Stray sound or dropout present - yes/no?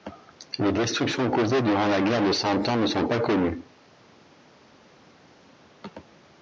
no